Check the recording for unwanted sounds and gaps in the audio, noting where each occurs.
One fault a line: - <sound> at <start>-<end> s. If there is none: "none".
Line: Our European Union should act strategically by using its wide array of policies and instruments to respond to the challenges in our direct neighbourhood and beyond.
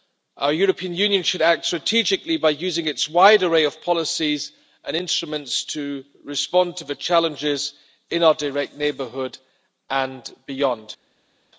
none